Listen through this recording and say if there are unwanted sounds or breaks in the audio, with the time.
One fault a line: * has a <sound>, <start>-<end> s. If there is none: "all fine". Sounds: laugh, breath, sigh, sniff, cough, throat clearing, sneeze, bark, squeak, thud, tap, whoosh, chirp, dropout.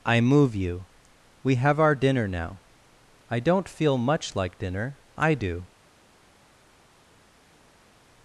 all fine